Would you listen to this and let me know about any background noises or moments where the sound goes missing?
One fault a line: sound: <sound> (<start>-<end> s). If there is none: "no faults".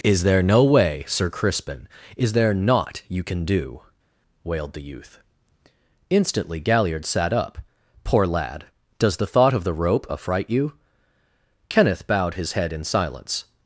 no faults